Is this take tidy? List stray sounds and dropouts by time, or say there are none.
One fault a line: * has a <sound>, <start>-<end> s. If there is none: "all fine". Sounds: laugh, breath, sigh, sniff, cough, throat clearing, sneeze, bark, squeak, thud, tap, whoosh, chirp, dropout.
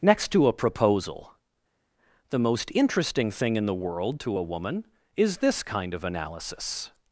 all fine